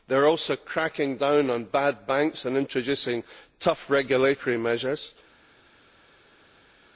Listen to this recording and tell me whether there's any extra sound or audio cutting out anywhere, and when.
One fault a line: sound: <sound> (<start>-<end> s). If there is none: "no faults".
no faults